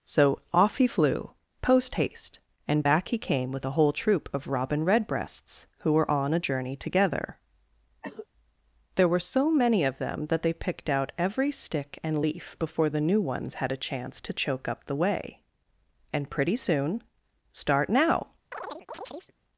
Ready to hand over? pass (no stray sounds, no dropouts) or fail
fail